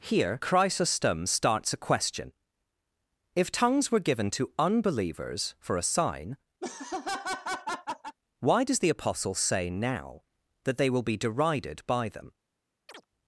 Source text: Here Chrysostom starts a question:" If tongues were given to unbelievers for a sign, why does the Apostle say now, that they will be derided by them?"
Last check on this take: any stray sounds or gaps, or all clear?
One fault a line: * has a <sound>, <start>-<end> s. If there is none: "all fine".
* has a laugh, 6.6-8.2 s
* has a chirp, 12.9-13.1 s